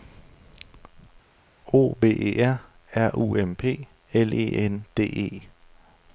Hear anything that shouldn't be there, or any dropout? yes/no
no